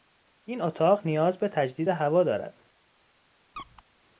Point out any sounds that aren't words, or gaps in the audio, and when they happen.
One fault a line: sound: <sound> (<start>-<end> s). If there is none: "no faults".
sound: squeak (3.6-3.8 s)